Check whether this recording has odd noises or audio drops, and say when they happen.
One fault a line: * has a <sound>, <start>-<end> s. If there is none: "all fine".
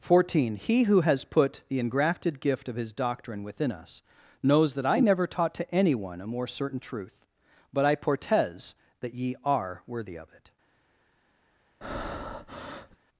* has a breath, 11.8-13.0 s